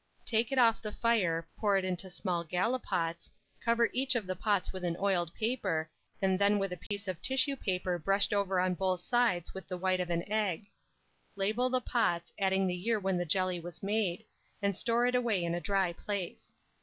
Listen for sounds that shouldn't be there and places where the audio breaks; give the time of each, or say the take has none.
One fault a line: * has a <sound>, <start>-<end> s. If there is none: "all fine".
* has a dropout, 6.9-6.9 s